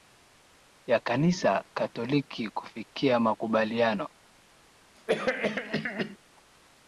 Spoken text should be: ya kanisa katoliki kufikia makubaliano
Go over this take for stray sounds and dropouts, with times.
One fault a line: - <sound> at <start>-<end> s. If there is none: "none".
- cough at 5.0-6.2 s